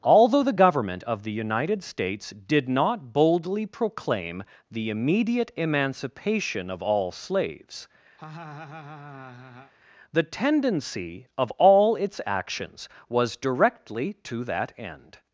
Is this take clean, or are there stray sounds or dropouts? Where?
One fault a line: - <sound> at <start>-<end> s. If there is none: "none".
- laugh at 8.2-9.7 s